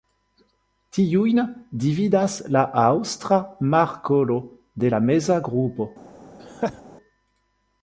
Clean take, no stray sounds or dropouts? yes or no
no